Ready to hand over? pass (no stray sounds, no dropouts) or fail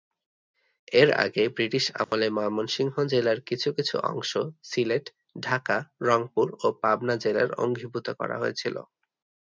fail